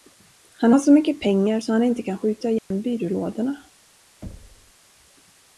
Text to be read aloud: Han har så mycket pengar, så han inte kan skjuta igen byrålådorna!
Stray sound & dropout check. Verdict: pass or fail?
fail